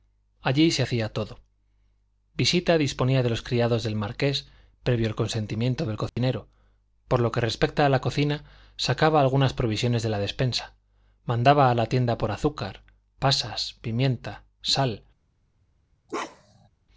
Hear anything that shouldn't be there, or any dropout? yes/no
yes